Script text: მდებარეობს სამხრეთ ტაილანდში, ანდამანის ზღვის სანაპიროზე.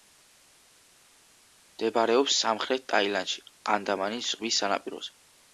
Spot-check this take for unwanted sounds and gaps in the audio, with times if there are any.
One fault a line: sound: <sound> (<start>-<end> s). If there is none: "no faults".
no faults